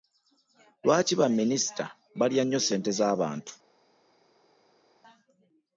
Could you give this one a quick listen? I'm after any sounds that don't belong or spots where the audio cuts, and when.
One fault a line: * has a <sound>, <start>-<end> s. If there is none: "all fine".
all fine